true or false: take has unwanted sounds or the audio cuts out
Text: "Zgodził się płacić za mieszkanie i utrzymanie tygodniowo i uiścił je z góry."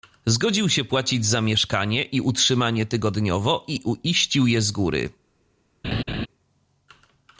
true